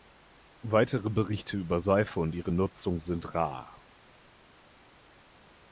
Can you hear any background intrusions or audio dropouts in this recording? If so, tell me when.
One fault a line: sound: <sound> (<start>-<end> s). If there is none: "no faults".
no faults